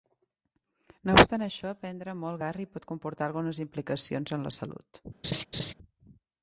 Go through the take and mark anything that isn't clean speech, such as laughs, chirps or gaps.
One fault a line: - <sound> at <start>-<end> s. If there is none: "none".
- laugh at 5.2-5.7 s